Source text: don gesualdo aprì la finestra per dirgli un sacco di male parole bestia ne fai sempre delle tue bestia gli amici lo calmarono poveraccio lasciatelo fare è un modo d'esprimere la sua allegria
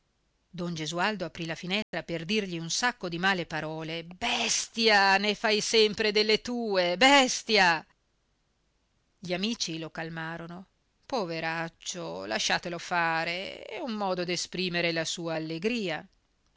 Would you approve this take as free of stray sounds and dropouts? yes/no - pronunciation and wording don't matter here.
no